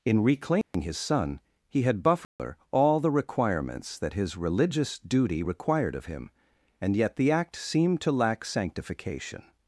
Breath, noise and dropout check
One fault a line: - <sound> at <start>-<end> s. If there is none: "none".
- dropout at 0.6-0.7 s
- dropout at 2.2-2.4 s